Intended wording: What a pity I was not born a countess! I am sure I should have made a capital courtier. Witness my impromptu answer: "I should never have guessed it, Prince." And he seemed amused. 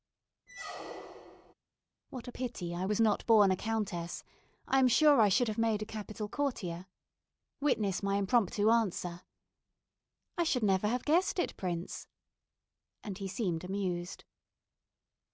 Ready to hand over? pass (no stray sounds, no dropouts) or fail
fail